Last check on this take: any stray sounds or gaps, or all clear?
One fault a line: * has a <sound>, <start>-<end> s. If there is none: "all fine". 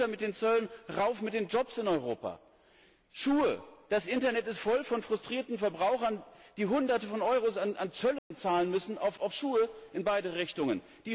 * has a dropout, 8.2-8.3 s